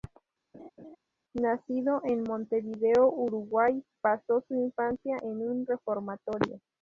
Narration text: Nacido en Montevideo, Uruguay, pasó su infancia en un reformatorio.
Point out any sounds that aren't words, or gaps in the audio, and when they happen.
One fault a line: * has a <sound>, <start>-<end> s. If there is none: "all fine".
* has a laugh, 0.5-1.0 s